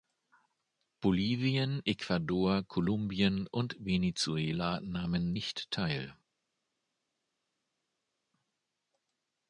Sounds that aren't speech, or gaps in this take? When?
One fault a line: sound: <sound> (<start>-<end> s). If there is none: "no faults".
no faults